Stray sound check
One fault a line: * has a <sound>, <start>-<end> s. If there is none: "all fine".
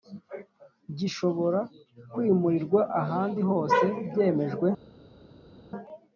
all fine